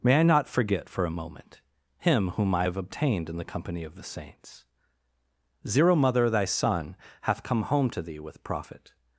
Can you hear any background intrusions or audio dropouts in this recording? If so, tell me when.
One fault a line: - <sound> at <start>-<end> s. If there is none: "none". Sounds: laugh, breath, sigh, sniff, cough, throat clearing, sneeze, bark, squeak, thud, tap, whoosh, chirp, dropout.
none